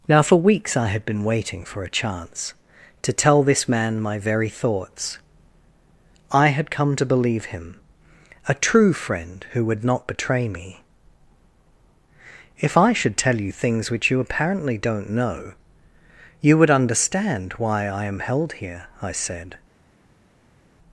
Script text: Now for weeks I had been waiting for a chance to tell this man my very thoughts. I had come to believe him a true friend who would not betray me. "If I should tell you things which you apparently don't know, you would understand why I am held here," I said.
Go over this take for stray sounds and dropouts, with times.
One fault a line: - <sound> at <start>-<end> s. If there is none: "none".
none